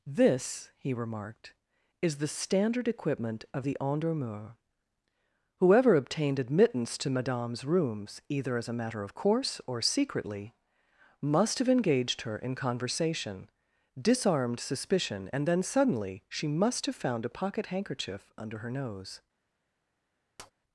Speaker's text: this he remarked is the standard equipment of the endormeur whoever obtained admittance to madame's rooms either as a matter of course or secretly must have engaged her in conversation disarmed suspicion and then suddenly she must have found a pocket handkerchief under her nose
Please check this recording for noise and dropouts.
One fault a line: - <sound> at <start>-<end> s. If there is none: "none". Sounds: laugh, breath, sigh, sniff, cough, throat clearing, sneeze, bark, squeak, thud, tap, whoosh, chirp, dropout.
- tap at 20.4-20.5 s